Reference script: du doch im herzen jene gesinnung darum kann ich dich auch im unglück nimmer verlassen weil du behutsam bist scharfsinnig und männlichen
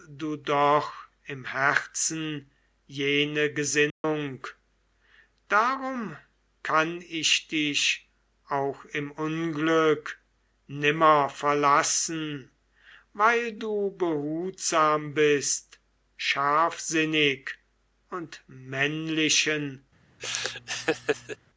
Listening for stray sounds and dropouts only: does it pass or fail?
fail